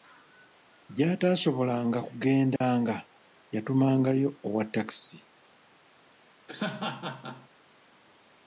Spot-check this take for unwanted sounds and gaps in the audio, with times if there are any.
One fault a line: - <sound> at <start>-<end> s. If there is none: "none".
- dropout at 2.6-2.6 s
- laugh at 6.5-7.5 s